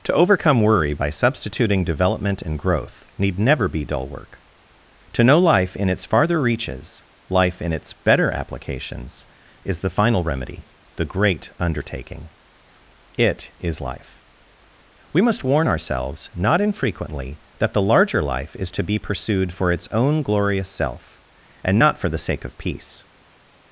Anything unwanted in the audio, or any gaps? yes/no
no